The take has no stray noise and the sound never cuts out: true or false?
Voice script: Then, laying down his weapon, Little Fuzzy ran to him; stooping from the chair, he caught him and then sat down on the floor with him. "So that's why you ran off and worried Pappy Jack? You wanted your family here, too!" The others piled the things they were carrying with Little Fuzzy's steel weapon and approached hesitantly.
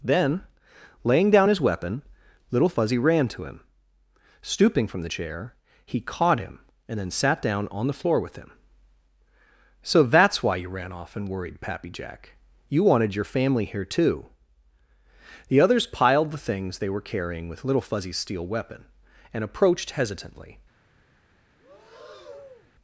false